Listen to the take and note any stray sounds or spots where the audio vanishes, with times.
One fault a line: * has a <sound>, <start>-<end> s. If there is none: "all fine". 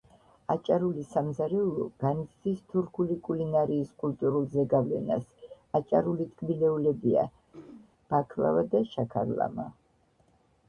* has a throat clearing, 7.5-7.9 s